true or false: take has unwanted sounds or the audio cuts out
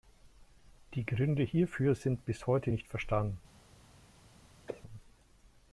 true